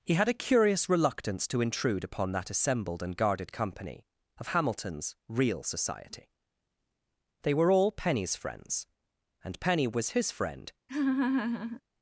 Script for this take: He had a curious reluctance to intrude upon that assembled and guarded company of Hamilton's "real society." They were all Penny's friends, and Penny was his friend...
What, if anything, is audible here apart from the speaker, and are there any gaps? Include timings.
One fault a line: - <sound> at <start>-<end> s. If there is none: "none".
- laugh at 10.9-11.8 s